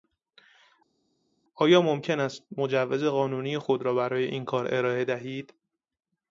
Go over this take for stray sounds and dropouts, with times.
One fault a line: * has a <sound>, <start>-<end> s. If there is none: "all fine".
all fine